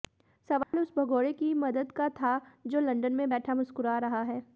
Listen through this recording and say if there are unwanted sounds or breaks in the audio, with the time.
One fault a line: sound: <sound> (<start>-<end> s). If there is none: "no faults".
sound: dropout (0.6-0.7 s)